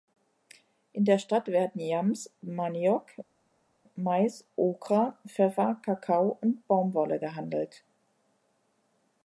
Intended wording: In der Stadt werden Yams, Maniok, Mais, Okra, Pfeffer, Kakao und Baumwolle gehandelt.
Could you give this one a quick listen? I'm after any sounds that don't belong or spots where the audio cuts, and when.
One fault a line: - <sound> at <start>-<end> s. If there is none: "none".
none